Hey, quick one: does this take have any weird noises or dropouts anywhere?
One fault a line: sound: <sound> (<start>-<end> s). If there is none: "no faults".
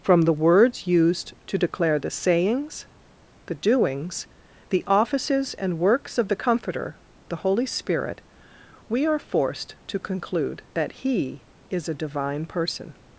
no faults